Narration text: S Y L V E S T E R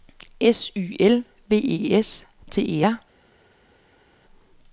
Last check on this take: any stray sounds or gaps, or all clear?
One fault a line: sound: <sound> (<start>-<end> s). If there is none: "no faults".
no faults